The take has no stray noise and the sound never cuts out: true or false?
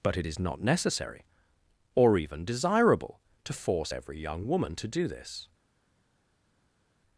true